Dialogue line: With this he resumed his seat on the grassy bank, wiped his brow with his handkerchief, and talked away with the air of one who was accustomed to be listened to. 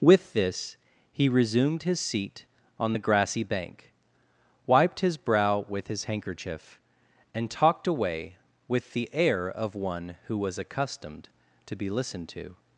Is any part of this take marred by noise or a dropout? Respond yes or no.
no